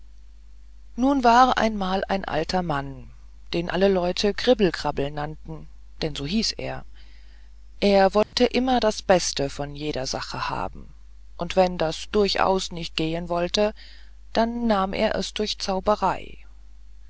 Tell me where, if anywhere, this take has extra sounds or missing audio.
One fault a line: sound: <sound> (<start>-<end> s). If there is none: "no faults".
sound: dropout (8.2-8.3 s)